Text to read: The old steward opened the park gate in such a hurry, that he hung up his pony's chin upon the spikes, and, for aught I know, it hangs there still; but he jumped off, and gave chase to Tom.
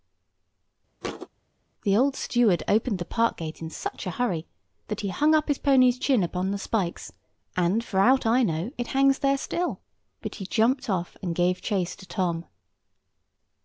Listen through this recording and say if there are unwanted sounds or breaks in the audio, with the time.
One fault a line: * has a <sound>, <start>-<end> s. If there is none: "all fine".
* has a thud, 1.0-1.3 s